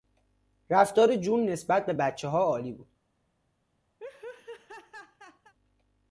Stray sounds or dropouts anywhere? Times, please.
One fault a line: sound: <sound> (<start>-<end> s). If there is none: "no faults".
sound: laugh (4.0-5.5 s)